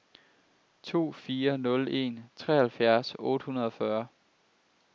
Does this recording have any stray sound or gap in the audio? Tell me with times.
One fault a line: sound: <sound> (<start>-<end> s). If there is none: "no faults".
no faults